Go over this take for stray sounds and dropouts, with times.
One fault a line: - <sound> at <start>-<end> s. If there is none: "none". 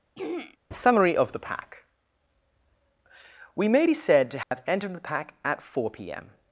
- throat clearing at 0.2-0.6 s
- dropout at 4.4-4.5 s